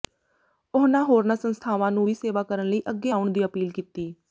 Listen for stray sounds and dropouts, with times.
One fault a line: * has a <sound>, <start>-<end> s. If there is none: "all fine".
all fine